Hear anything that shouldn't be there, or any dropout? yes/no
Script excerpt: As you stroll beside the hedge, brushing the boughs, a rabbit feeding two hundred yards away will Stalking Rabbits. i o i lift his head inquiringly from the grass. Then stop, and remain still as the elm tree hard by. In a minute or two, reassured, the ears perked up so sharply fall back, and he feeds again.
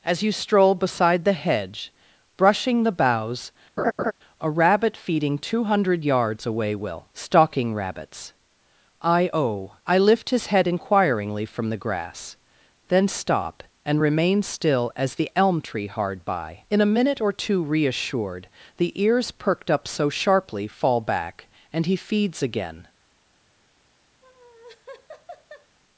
yes